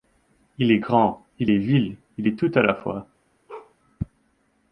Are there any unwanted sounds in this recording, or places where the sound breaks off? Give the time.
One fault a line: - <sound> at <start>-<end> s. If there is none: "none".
- bark at 3.5-3.7 s